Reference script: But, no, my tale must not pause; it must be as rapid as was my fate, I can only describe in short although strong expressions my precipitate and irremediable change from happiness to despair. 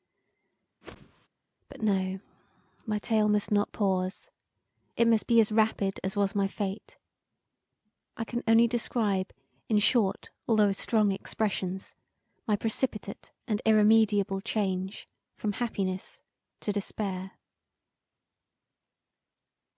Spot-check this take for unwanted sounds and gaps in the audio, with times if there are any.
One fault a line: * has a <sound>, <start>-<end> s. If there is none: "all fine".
* has a whoosh, 0.8-1.3 s